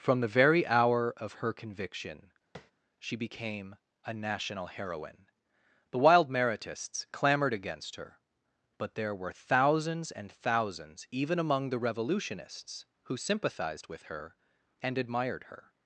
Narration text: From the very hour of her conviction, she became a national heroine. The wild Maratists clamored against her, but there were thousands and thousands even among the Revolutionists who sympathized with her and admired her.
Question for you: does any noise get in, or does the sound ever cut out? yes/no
yes